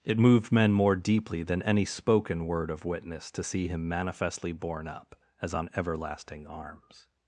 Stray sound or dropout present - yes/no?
no